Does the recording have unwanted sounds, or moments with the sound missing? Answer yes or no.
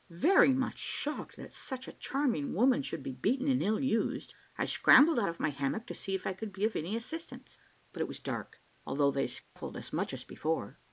yes